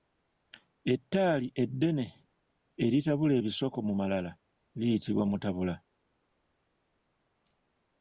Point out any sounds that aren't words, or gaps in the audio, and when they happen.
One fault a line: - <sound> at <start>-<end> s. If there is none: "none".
none